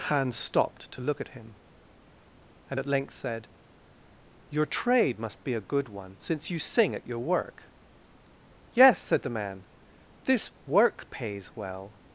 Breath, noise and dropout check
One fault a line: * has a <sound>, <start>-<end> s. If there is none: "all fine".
all fine